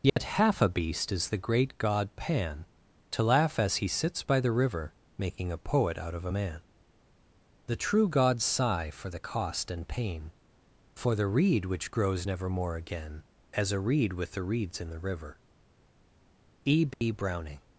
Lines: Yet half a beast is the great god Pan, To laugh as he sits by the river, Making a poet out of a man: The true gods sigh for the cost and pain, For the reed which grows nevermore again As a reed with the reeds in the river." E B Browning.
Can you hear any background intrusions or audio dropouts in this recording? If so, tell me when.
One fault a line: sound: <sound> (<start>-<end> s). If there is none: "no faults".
sound: dropout (0.1-0.2 s)
sound: dropout (16.9-17.0 s)